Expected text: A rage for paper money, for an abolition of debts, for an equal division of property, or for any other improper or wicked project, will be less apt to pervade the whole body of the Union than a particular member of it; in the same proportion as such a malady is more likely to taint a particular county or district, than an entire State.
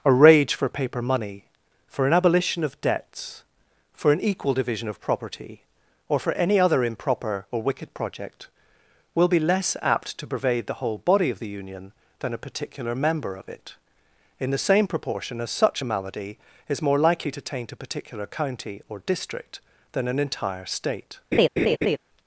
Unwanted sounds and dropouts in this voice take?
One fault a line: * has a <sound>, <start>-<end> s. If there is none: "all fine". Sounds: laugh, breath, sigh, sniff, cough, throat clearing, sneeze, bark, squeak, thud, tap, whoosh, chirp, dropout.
* has a laugh, 21.3-22.0 s